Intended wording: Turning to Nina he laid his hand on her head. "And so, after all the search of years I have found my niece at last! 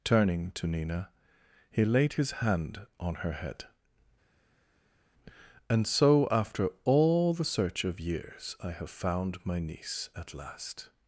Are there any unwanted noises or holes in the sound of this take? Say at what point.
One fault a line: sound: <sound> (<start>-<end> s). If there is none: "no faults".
no faults